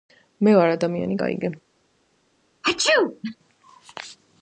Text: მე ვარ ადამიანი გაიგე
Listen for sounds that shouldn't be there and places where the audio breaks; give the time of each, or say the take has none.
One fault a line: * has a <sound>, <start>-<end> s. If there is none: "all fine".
* has a sneeze, 2.6-3.4 s